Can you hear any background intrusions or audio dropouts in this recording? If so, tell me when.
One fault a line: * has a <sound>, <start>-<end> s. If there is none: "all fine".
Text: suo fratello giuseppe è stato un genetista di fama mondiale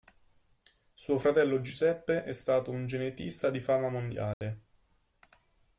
* has a dropout, 4.3-4.4 s